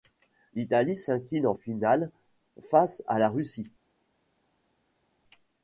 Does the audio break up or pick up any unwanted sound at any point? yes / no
no